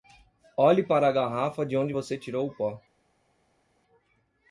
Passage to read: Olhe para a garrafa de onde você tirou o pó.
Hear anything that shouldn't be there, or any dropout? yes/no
no